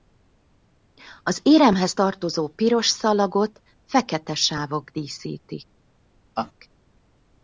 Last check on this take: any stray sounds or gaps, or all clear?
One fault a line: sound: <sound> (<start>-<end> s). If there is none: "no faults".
sound: laugh (6.4-6.5 s)